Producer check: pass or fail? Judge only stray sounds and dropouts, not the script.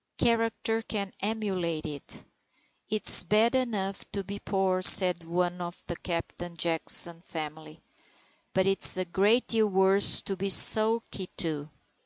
pass